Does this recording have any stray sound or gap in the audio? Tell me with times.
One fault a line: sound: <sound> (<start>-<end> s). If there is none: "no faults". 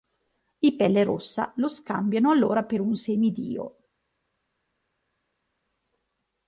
no faults